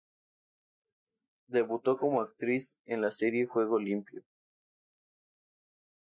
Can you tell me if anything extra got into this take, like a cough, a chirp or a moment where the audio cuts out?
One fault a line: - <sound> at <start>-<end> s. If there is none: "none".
none